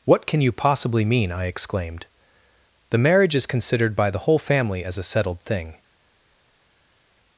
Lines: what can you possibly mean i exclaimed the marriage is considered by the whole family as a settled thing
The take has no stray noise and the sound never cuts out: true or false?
true